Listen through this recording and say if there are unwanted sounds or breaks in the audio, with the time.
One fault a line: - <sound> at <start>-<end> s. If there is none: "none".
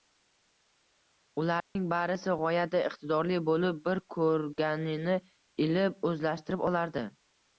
- dropout at 1.6-1.8 s